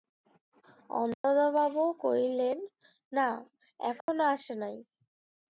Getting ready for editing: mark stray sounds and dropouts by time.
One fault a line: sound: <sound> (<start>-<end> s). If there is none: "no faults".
sound: dropout (1.1-1.2 s)
sound: dropout (4.0-4.1 s)